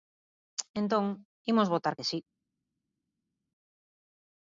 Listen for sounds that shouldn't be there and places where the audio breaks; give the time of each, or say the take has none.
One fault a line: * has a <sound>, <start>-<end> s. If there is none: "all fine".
all fine